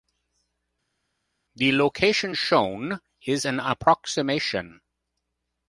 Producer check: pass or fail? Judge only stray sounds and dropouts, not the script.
pass